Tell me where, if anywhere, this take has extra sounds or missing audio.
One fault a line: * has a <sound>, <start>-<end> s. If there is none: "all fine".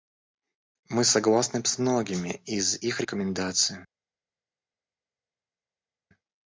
all fine